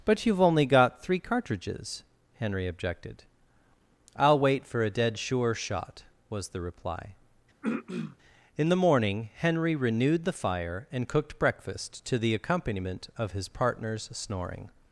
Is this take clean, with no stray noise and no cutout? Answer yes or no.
no